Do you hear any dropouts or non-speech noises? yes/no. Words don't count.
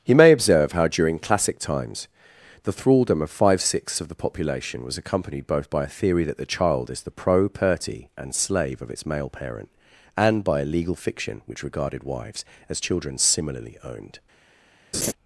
yes